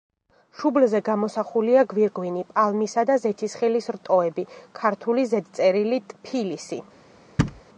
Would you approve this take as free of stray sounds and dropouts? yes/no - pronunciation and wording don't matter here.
no